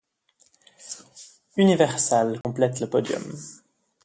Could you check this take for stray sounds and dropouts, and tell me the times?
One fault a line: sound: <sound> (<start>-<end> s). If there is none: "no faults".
sound: dropout (2.4-2.4 s)